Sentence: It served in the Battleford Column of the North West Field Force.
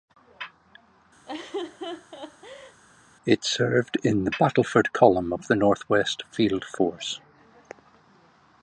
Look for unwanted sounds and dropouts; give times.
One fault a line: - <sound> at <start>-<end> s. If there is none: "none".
- laugh at 1.3-2.8 s